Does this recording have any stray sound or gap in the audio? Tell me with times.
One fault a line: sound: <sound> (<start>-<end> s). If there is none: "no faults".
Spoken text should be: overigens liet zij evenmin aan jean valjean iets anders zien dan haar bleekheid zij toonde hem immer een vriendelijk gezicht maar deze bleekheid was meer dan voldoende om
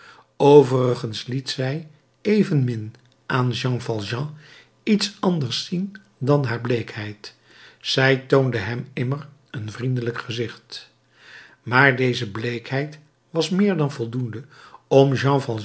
no faults